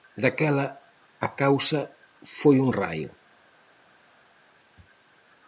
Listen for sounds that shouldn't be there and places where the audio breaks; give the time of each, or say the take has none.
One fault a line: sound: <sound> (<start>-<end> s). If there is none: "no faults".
no faults